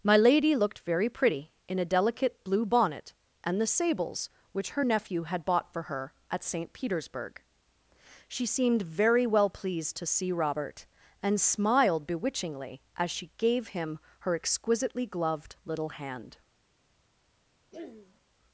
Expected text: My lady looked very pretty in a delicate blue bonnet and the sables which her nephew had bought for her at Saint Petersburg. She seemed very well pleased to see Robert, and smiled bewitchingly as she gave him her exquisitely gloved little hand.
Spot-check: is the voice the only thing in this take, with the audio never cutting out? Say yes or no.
no